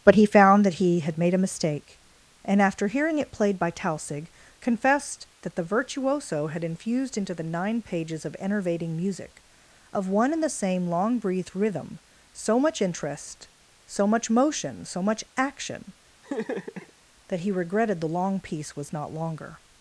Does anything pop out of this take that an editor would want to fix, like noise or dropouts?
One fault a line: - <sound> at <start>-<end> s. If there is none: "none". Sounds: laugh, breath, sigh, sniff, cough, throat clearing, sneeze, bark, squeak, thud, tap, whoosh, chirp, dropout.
- laugh at 16.2-16.9 s